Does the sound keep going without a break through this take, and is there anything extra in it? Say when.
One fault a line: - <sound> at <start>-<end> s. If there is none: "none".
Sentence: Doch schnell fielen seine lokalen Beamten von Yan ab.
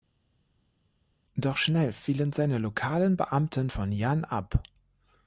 none